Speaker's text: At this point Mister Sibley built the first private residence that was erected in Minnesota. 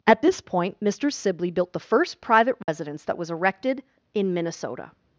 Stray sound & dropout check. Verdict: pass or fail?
fail